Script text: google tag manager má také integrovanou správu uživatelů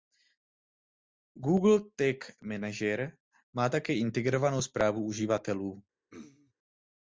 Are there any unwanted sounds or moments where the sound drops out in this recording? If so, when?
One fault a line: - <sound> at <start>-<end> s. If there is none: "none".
- throat clearing at 6.1-6.5 s